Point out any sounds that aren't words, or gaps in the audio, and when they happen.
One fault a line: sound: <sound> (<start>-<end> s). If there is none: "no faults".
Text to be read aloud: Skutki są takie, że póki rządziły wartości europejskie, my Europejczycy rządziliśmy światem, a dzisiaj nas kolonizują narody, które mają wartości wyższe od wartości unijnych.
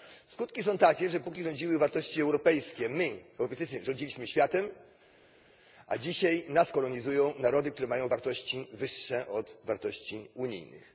no faults